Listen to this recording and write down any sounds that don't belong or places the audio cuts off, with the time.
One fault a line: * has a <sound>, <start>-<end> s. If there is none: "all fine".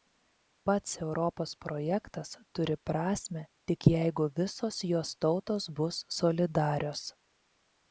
all fine